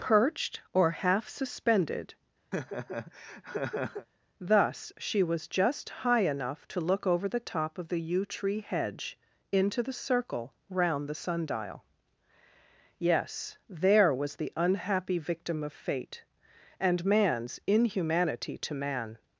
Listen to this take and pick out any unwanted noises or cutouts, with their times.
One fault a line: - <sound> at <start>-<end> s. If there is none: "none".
- laugh at 2.5-4.1 s